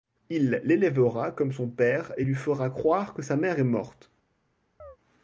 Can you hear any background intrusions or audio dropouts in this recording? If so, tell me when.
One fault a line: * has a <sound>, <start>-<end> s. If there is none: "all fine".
* has a chirp, 4.8-5.0 s